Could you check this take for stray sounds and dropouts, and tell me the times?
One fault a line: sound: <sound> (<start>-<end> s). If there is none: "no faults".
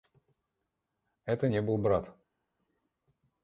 no faults